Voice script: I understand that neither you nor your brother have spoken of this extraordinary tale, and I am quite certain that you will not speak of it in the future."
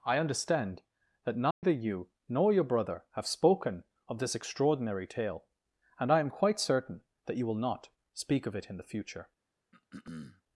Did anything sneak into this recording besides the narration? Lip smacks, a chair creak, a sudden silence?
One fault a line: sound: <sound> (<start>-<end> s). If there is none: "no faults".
sound: dropout (1.5-1.6 s)
sound: throat clearing (9.7-10.4 s)